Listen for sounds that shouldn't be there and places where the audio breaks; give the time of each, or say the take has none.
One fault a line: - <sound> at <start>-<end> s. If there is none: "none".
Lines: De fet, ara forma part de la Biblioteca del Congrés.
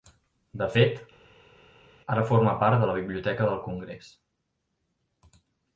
none